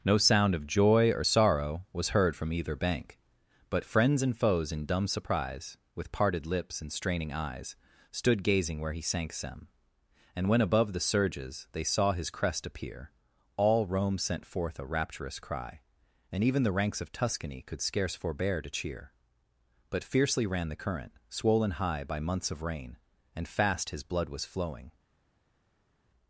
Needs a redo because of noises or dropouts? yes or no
no